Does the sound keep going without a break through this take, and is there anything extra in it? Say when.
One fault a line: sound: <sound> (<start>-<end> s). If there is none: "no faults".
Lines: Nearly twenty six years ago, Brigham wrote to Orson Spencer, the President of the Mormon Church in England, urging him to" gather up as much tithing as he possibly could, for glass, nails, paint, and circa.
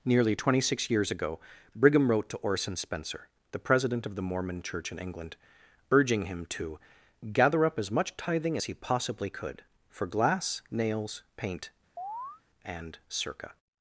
sound: chirp (12.0-12.4 s)